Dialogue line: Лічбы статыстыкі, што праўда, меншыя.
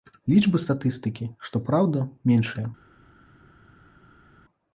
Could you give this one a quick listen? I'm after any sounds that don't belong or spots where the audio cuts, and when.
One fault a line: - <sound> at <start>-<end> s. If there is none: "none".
none